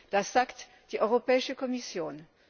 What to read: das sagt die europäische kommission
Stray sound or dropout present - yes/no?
no